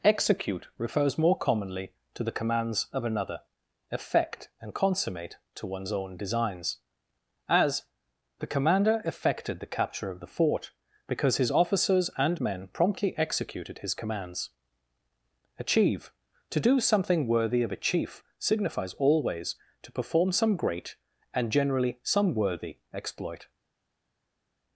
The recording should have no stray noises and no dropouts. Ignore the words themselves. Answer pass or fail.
pass